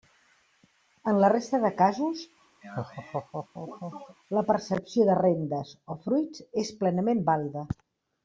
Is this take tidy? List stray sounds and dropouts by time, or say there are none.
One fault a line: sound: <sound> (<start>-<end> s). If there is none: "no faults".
sound: laugh (2.6-4.2 s)